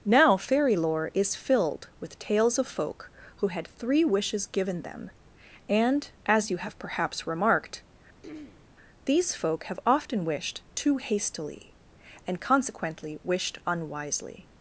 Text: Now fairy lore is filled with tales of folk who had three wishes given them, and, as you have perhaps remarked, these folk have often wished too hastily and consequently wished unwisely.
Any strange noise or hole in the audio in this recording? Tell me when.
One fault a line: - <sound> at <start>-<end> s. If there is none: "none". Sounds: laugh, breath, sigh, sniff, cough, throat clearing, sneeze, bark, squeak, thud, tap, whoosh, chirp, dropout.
- throat clearing at 8.2-8.7 s